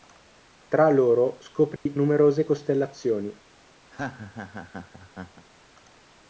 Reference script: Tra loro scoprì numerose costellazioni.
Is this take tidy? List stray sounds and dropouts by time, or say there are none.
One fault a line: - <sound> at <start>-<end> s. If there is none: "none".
- dropout at 1.8-1.9 s
- laugh at 3.9-5.5 s